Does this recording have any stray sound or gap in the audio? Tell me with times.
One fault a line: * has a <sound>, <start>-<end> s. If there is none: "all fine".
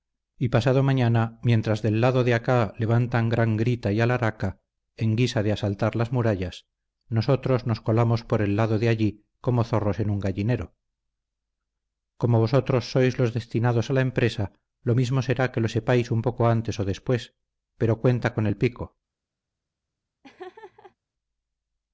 * has a laugh, 20.2-21.0 s